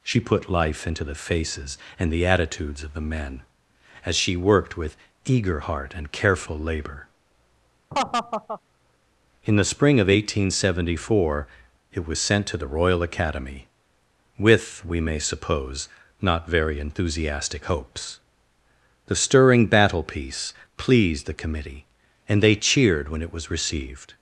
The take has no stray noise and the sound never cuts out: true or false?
false